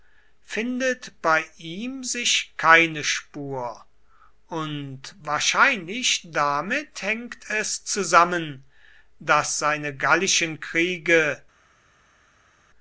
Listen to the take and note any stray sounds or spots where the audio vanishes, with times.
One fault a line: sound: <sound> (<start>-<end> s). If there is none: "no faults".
no faults